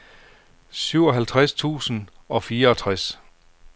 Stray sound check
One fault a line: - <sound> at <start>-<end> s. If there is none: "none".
none